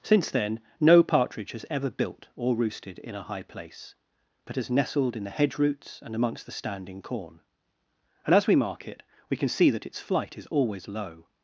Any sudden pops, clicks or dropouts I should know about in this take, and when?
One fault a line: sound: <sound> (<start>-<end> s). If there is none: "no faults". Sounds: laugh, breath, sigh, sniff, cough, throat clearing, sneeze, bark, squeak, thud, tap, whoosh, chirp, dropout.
no faults